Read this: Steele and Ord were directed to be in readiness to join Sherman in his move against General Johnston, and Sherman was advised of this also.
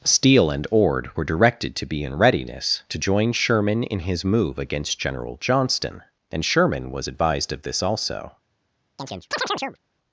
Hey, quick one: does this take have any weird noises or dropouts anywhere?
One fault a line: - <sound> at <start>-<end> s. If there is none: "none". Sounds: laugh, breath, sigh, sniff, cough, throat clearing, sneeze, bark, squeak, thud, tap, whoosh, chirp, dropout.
- chirp at 9.0-9.8 s